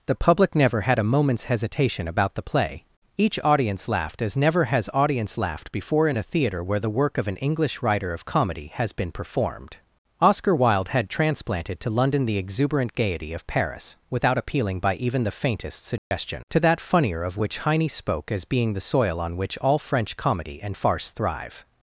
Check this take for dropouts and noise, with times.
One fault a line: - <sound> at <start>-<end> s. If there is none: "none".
- dropout at 16.0-16.1 s